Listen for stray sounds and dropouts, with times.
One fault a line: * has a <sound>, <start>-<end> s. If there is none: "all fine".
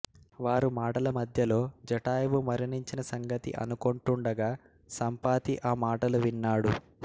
all fine